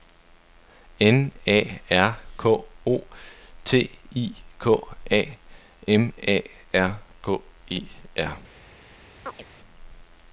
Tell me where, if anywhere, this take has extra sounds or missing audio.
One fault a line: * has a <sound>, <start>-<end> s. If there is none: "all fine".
* has a chirp, 9.3-9.4 s